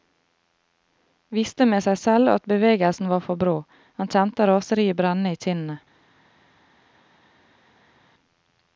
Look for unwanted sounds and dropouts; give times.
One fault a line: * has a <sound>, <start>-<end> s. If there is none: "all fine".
all fine